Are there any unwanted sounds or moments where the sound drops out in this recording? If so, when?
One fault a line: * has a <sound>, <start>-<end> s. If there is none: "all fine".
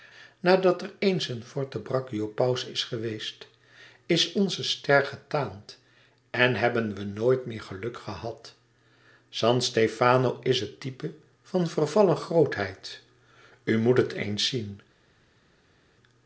all fine